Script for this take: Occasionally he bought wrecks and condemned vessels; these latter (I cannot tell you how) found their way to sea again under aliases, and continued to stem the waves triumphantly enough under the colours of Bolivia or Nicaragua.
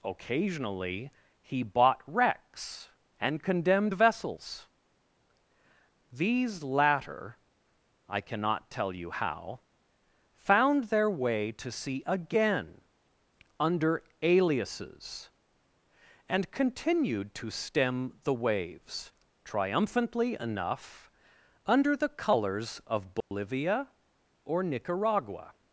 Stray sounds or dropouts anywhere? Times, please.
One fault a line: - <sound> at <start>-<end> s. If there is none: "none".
- dropout at 23.2-23.3 s